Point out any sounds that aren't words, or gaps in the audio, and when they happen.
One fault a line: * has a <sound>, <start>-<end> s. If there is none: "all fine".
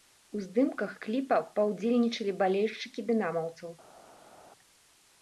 all fine